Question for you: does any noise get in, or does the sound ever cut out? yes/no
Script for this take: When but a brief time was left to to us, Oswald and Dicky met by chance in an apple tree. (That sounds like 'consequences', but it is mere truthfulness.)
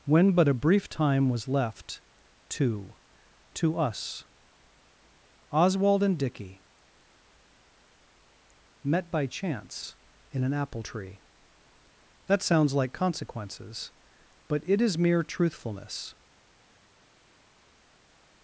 no